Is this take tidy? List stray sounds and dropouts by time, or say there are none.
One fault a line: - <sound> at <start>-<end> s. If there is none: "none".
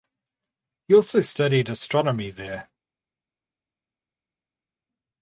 none